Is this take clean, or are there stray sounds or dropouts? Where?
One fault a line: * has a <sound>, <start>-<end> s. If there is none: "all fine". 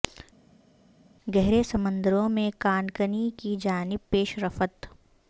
all fine